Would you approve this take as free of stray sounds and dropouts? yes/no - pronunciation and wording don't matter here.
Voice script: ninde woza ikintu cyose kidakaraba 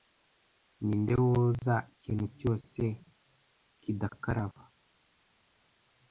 yes